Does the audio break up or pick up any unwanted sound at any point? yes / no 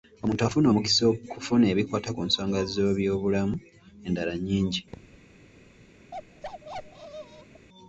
yes